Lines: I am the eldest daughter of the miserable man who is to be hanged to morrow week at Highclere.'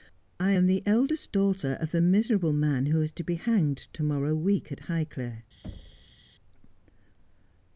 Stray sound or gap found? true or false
true